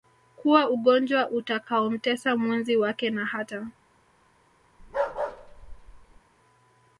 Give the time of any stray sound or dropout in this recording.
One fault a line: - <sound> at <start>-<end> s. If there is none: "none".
- bark at 4.8-6.2 s